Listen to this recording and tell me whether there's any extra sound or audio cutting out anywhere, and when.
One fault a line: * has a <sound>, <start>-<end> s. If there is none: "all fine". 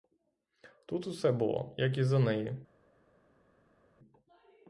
all fine